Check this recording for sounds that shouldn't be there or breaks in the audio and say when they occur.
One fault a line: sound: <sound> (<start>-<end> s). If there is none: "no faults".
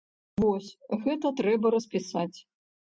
no faults